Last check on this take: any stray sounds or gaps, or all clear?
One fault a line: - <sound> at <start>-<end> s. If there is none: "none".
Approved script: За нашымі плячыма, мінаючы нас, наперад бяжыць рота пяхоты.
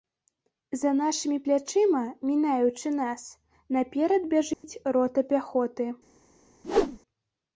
- dropout at 4.5-4.6 s
- whoosh at 6.6-7.0 s